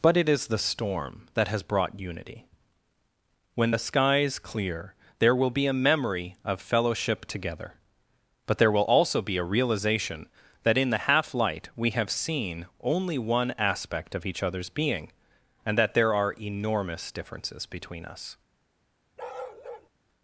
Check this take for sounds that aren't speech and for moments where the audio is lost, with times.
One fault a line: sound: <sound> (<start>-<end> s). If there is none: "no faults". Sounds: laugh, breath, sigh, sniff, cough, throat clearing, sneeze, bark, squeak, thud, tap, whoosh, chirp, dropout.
sound: bark (19.2-19.9 s)